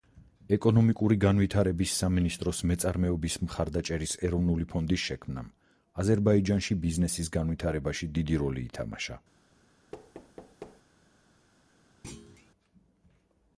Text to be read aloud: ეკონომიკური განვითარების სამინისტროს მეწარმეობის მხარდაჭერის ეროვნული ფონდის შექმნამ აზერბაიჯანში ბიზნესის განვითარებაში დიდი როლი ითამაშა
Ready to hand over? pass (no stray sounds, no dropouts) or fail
fail